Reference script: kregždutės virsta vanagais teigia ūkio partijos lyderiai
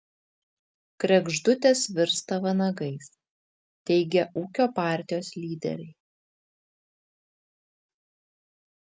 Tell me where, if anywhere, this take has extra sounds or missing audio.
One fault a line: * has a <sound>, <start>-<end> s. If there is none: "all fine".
all fine